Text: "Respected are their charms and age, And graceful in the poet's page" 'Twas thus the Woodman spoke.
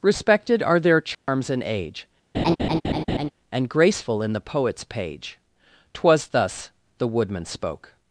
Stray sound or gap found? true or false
true